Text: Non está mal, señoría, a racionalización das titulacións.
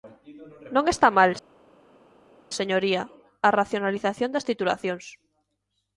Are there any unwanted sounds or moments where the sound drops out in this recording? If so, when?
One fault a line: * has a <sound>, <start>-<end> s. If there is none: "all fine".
all fine